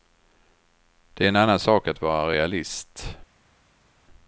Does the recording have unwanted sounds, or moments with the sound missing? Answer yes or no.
no